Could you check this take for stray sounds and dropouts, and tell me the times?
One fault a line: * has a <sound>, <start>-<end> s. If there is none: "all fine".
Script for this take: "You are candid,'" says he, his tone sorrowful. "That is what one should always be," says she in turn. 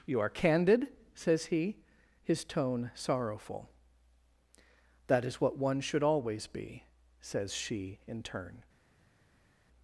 all fine